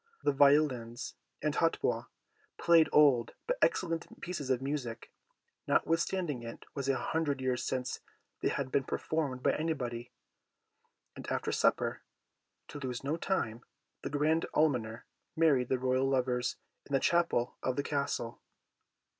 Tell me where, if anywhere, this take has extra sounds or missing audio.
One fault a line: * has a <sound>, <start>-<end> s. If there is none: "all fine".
all fine